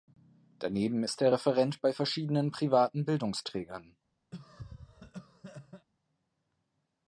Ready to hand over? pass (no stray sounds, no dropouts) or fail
fail